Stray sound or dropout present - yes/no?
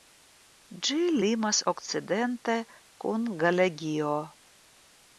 no